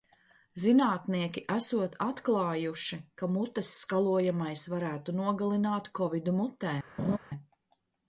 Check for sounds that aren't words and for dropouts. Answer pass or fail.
fail